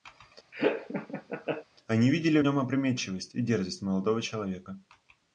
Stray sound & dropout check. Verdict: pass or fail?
fail